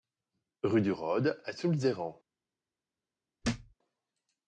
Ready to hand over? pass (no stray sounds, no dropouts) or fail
fail